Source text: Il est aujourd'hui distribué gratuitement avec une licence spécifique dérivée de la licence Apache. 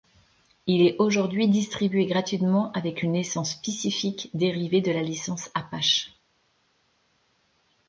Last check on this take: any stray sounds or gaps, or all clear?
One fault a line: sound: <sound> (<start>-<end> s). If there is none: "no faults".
no faults